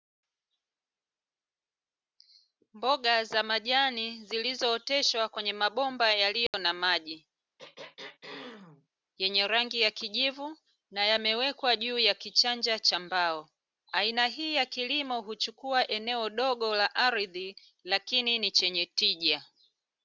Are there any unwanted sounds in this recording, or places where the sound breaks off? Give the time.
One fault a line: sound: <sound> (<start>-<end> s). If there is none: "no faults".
sound: dropout (6.5-6.5 s)
sound: throat clearing (7.6-8.9 s)